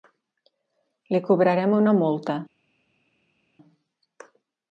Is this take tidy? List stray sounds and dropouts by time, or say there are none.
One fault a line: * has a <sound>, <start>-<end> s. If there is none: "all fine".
all fine